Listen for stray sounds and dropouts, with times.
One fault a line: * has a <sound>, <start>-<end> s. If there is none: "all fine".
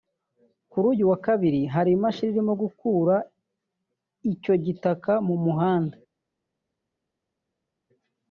all fine